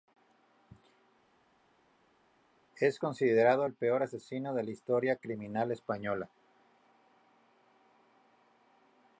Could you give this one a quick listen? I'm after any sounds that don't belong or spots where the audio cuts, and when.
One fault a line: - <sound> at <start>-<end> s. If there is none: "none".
none